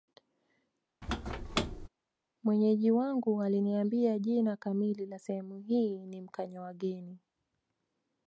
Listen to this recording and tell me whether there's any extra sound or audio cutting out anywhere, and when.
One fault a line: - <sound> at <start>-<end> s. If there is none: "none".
- squeak at 1.0-1.9 s